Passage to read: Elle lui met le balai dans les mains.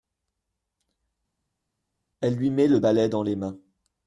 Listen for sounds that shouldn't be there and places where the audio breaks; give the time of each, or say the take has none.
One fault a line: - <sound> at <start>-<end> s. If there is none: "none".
none